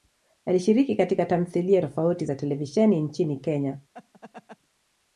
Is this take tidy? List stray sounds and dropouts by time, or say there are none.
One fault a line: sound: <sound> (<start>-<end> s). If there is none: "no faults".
sound: laugh (3.9-4.6 s)